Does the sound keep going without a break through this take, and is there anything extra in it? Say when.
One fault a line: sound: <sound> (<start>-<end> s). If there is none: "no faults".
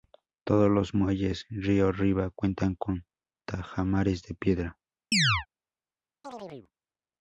sound: chirp (5.1-5.5 s)
sound: chirp (6.2-6.7 s)